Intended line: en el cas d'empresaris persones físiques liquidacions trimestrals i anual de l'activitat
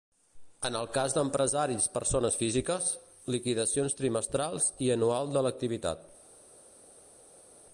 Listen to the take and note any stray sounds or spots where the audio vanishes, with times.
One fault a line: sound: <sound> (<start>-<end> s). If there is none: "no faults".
no faults